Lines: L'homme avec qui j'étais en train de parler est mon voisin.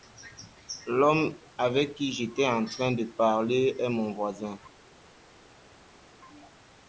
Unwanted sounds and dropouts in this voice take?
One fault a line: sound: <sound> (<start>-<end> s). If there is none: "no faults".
no faults